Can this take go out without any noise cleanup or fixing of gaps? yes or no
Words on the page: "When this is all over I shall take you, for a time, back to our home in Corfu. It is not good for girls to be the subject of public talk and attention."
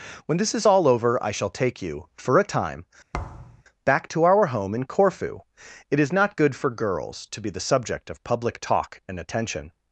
no